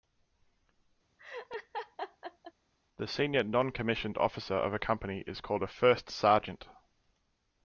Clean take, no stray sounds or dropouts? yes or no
no